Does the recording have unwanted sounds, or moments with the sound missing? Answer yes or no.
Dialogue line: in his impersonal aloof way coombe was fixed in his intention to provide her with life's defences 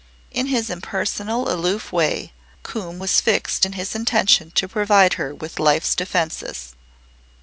no